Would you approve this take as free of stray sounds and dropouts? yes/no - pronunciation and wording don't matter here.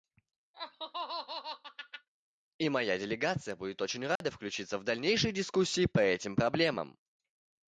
no